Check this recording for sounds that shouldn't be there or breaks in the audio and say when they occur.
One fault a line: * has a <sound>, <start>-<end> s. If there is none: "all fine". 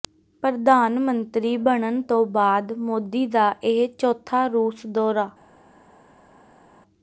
all fine